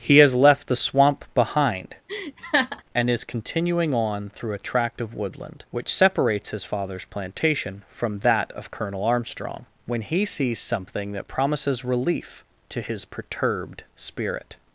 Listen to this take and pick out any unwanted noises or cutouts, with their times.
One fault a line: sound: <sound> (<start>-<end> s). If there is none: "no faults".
sound: laugh (2.1-2.8 s)